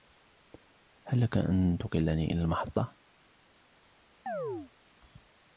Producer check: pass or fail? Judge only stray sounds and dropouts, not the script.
fail